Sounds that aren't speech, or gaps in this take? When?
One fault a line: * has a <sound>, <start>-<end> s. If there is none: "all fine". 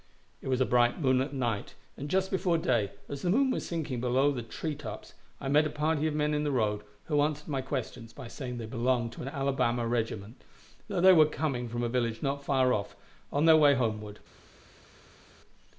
all fine